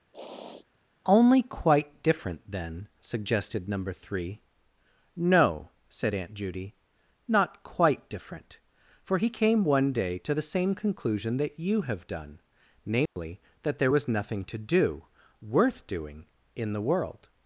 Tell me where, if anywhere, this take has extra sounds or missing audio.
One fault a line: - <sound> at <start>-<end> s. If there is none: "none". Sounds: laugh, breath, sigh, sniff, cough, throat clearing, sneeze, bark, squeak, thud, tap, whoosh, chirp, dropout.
- sniff at 0.1-0.8 s
- dropout at 13.1-13.2 s